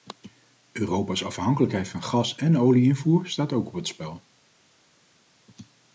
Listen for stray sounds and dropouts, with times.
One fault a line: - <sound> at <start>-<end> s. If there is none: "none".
none